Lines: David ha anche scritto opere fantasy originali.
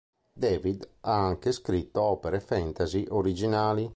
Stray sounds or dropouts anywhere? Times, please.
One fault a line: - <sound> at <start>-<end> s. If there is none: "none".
none